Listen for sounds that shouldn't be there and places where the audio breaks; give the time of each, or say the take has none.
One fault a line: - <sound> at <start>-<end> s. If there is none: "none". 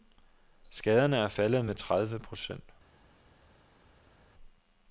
none